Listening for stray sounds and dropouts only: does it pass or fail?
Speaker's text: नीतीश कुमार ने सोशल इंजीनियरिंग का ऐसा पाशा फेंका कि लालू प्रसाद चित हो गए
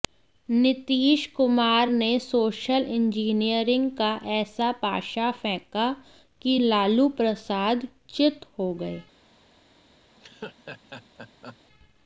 fail